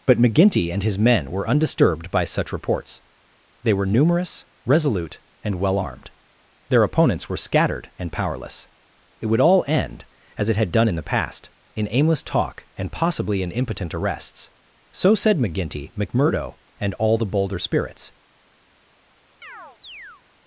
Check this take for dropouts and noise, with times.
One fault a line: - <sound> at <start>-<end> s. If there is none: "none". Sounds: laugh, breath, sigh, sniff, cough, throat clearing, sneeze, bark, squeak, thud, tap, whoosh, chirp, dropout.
- chirp at 19.4-20.2 s